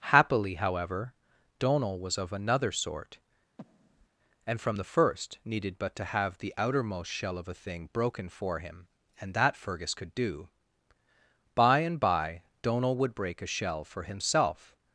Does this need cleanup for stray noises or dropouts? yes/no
yes